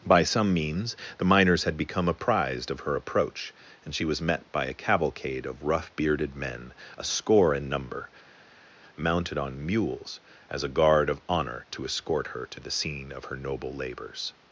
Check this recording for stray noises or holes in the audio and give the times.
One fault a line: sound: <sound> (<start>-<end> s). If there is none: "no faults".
no faults